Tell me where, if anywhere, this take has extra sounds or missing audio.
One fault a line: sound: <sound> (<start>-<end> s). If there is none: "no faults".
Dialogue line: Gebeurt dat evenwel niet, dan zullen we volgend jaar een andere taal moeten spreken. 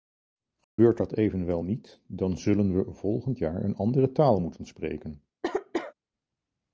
sound: dropout (0.6-0.8 s)
sound: cough (5.4-5.9 s)